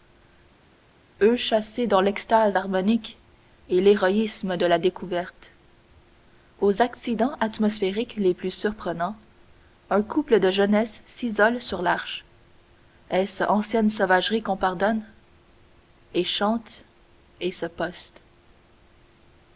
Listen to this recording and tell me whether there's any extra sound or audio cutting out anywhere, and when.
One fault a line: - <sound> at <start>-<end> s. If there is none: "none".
none